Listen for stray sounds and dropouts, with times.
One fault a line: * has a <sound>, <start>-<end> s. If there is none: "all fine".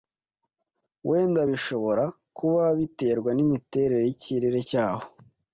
all fine